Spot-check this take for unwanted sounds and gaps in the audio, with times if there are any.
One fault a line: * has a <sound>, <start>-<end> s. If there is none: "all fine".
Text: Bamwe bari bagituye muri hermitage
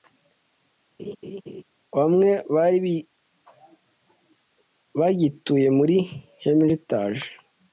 * has a laugh, 1.0-1.6 s